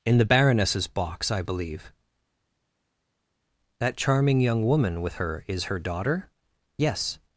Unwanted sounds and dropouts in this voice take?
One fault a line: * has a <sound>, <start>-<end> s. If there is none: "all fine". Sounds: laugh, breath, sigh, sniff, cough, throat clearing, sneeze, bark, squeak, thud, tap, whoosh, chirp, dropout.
all fine